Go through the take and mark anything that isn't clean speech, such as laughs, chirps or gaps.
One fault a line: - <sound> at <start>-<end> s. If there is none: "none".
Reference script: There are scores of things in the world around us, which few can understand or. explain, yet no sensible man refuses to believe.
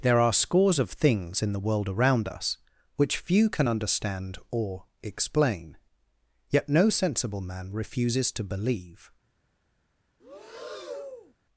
- breath at 10.2-11.3 s